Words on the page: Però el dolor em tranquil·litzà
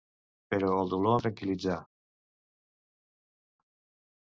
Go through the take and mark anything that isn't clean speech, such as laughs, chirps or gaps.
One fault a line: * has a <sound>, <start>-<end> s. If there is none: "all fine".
all fine